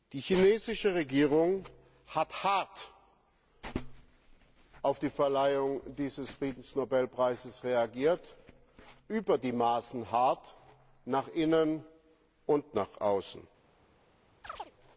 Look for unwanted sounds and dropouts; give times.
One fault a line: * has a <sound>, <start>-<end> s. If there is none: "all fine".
* has a chirp, 14.4-14.7 s